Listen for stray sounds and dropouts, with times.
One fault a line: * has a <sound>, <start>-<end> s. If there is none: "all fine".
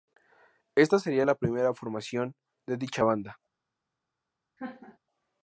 * has a laugh, 4.6-5.0 s